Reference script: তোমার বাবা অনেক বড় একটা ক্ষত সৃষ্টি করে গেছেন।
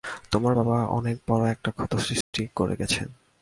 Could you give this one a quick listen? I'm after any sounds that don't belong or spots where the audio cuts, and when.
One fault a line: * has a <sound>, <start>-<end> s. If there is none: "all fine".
* has a dropout, 2.2-2.3 s